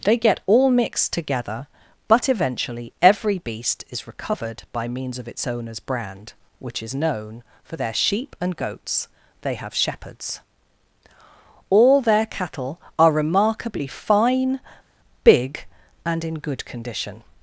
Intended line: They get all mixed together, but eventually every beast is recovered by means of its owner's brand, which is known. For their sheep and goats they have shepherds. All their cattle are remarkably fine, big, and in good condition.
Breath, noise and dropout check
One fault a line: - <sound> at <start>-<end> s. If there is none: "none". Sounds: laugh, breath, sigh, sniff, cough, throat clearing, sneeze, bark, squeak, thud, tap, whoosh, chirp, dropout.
none